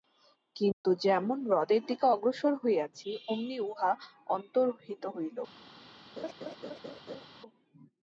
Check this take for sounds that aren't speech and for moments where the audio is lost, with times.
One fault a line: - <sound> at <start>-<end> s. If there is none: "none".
- dropout at 0.7-0.8 s
- laugh at 6.2-7.3 s